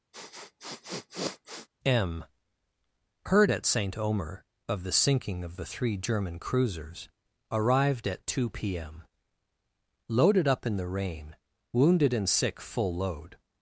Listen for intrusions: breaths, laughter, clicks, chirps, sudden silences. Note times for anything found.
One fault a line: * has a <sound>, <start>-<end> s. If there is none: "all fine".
* has a sniff, 0.1-1.7 s